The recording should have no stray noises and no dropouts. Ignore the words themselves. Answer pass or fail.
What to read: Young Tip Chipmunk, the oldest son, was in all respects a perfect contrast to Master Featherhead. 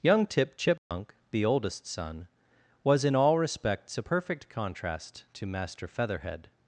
fail